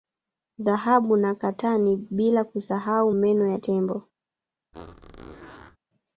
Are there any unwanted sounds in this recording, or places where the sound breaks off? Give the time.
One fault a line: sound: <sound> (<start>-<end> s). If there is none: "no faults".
sound: squeak (4.7-5.8 s)